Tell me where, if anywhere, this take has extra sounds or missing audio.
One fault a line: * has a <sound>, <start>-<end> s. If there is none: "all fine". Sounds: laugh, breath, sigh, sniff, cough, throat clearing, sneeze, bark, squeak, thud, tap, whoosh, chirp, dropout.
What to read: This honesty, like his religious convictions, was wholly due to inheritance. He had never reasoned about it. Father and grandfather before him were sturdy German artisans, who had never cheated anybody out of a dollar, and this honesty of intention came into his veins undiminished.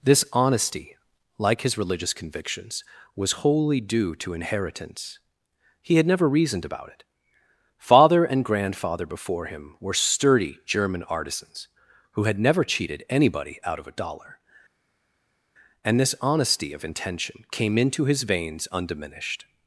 all fine